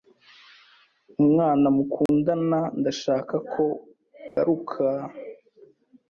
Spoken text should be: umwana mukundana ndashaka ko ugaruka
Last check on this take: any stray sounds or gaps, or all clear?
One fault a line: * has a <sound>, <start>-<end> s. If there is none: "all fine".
* has a dropout, 2.1-2.1 s
* has a dropout, 4.3-4.4 s